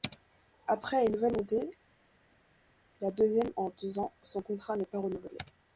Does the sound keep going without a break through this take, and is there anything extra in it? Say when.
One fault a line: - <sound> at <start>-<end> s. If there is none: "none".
none